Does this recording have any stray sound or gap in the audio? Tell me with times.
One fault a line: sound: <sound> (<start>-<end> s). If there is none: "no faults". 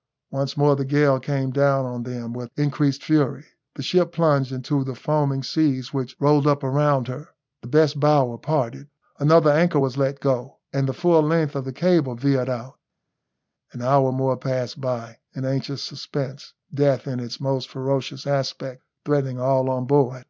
no faults